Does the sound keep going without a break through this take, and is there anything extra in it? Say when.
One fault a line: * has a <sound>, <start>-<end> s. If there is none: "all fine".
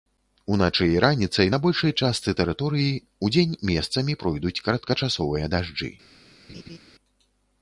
* has a laugh, 6.5-6.8 s